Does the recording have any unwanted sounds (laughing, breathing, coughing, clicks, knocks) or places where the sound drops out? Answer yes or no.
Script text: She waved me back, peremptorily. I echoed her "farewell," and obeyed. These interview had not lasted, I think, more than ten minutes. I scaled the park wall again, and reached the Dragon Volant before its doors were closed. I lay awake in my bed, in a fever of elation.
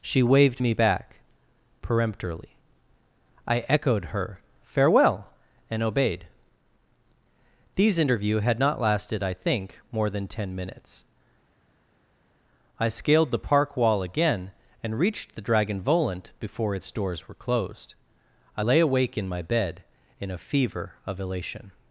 no